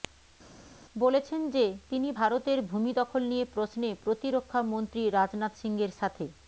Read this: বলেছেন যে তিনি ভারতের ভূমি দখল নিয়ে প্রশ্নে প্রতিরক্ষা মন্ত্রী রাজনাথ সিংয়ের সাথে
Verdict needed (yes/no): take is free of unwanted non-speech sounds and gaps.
yes